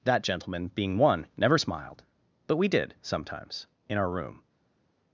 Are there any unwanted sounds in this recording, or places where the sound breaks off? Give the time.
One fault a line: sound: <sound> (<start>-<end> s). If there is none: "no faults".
no faults